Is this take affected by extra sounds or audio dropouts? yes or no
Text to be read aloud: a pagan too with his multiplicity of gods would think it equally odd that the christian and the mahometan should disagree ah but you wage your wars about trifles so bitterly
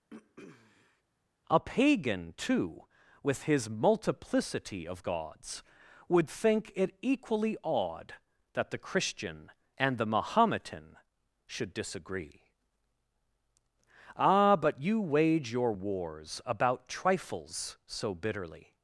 yes